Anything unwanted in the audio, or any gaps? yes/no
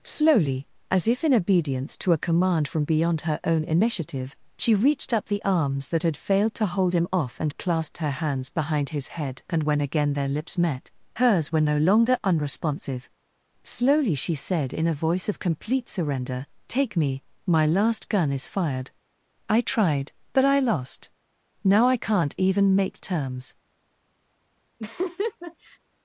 yes